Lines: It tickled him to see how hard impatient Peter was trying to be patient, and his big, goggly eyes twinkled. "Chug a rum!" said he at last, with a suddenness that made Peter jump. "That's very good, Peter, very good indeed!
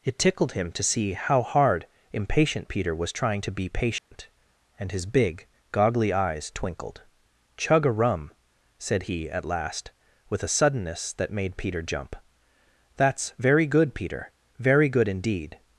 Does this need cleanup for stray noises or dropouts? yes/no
yes